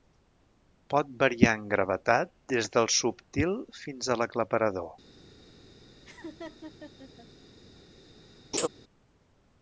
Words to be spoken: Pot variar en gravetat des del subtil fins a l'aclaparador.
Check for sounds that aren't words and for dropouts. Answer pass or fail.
fail